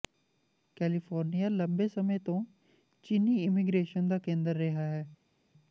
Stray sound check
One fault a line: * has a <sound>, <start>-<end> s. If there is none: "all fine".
all fine